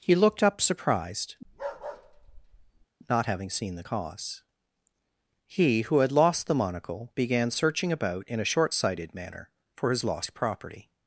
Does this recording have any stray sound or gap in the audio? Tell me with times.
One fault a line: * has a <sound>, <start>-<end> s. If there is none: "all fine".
* has a bark, 1.4-2.9 s